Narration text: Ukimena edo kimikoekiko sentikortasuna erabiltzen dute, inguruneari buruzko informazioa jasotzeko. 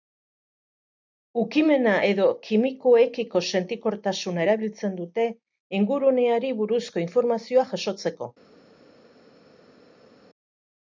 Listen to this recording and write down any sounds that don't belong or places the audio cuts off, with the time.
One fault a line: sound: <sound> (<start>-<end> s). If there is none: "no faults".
no faults